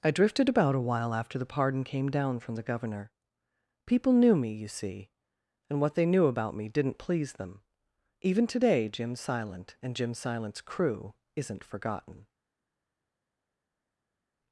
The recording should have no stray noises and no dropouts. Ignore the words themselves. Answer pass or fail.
pass